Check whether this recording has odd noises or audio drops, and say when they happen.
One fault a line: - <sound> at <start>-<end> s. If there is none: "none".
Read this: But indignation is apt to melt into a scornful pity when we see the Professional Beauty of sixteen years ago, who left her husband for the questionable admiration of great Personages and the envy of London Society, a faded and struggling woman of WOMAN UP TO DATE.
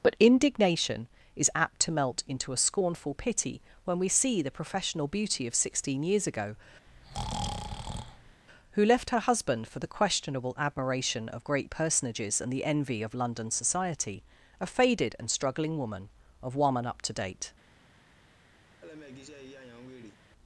- breath at 6.9-8.4 s
- laugh at 18.8-20.2 s